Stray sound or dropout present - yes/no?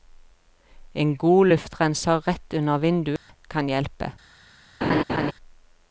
yes